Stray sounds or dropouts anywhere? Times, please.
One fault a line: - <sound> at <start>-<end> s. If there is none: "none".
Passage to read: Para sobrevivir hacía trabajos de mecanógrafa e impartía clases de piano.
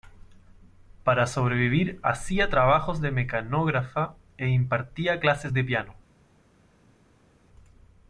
none